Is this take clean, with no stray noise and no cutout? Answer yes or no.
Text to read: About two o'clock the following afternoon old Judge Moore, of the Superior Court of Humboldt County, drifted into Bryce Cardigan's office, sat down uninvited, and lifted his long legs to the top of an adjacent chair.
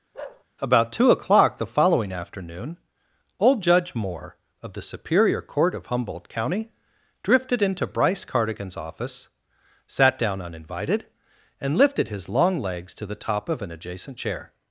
no